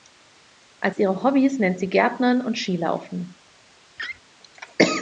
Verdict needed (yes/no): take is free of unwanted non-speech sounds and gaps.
no